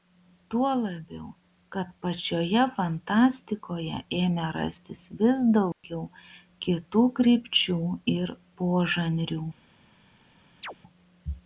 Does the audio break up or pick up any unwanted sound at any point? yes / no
yes